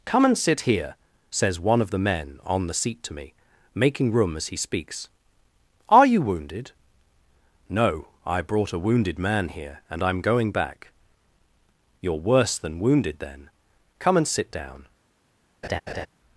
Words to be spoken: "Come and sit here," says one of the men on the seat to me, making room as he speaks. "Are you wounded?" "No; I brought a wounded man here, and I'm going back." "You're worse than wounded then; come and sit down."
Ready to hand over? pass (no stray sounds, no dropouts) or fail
fail